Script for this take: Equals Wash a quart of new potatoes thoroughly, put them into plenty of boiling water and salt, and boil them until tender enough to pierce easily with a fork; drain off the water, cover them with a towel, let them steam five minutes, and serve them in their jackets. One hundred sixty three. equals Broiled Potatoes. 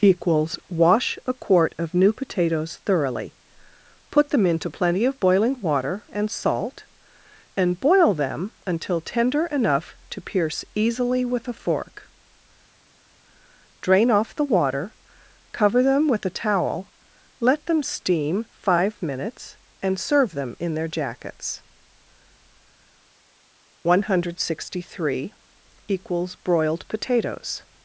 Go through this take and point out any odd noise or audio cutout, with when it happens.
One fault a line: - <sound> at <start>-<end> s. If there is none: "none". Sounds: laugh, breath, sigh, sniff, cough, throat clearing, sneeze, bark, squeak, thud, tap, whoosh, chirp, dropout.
none